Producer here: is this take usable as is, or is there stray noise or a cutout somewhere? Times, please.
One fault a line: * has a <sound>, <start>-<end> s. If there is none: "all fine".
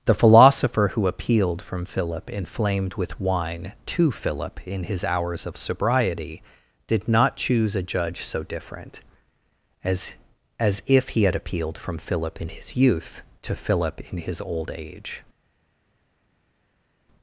all fine